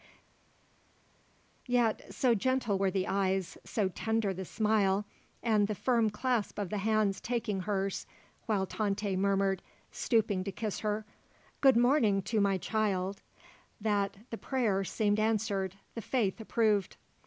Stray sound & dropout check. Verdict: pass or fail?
pass